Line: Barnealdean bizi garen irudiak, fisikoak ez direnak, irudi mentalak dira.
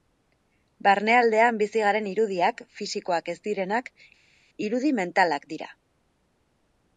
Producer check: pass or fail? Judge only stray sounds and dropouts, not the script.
pass